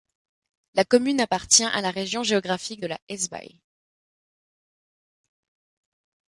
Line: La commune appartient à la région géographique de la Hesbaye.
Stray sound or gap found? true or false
false